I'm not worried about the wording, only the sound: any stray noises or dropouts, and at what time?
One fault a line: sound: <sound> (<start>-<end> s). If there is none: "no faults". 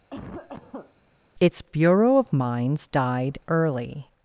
sound: cough (0.1-0.9 s)